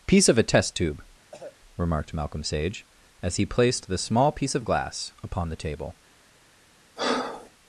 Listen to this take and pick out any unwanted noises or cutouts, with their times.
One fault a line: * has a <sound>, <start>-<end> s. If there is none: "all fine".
* has a cough, 1.3-1.6 s
* has a breath, 7.0-7.5 s